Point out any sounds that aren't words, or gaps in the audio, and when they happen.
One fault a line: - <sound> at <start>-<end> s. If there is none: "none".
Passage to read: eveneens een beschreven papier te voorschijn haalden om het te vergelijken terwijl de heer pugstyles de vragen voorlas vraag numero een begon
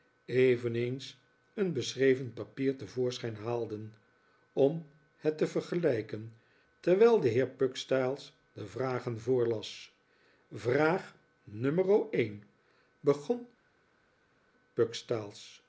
none